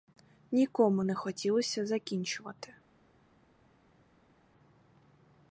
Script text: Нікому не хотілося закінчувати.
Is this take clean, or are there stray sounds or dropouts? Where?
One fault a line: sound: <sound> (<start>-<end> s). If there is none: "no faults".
no faults